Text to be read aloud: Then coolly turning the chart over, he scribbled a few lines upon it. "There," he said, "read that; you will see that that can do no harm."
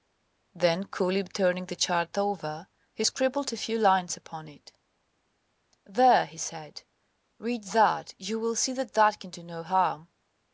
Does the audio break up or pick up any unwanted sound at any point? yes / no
no